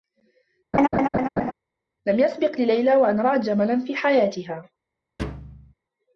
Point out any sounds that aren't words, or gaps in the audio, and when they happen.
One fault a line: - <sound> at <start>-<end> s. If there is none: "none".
- laugh at 0.7-1.5 s
- thud at 5.2-5.7 s